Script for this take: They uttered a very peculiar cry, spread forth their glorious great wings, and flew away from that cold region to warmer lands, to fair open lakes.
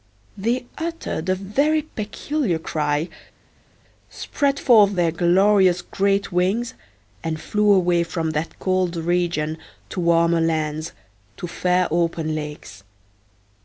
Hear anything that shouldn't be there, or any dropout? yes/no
no